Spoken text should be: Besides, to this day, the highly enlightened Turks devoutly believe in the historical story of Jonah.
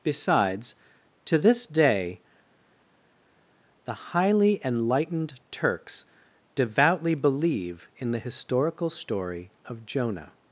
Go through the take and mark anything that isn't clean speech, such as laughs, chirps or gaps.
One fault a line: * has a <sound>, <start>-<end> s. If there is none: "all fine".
all fine